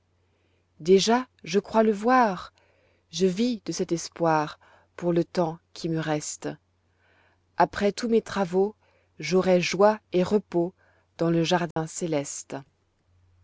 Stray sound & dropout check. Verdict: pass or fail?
fail